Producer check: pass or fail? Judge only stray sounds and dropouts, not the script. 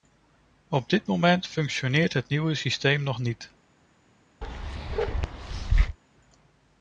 fail